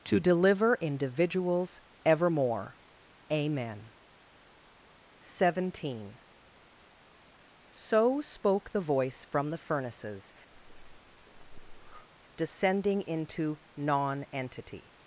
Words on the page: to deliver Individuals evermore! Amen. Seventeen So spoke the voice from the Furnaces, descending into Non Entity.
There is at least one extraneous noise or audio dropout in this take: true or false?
true